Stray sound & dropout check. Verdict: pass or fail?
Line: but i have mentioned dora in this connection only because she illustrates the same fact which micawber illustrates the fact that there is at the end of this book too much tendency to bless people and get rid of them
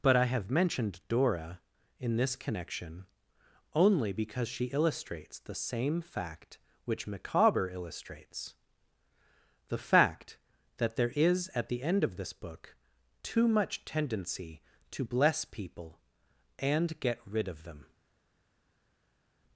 pass